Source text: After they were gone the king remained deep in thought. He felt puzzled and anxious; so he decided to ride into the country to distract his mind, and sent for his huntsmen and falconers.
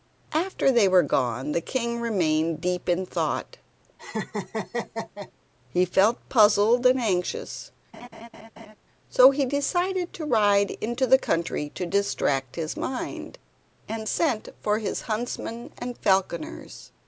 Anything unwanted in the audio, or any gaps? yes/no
yes